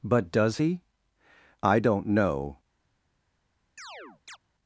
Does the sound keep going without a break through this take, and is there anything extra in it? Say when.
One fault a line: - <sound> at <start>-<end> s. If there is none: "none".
- chirp at 3.8-4.4 s